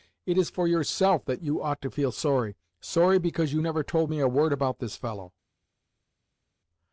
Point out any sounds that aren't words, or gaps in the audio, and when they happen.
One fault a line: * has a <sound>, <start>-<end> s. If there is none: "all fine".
all fine